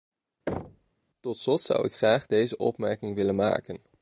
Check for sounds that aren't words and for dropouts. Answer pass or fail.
fail